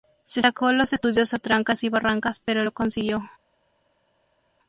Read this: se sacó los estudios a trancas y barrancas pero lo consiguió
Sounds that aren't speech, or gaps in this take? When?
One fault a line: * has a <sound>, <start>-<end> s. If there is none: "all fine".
all fine